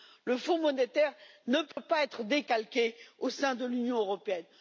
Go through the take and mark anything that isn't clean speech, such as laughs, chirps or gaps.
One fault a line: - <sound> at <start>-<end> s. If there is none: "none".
- dropout at 1.7-1.8 s